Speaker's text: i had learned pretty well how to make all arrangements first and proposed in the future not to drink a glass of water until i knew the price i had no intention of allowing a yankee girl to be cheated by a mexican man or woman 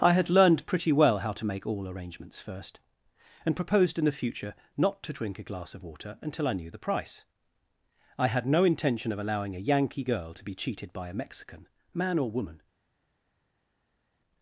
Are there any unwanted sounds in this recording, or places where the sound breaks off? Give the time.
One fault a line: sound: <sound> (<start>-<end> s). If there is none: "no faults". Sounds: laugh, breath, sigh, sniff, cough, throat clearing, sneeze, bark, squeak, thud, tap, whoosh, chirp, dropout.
no faults